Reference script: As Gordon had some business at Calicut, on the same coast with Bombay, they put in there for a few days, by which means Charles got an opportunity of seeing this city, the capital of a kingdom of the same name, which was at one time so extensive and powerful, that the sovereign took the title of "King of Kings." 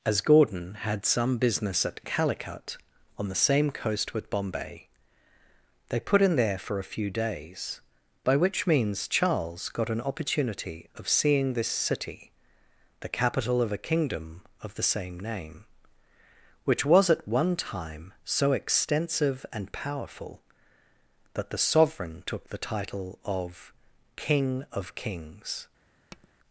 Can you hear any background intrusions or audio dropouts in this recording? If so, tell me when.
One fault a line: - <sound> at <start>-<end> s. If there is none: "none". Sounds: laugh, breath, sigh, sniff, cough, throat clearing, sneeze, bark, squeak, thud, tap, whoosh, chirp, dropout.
- tap at 26.1-26.3 s